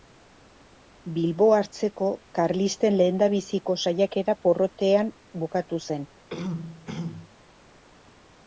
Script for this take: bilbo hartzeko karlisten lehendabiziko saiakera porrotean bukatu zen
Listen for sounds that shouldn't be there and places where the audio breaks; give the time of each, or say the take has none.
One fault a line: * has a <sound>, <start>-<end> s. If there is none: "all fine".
* has a throat clearing, 6.3-7.3 s